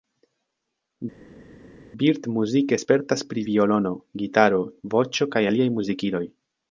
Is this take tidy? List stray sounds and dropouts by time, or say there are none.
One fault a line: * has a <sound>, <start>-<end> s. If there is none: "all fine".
all fine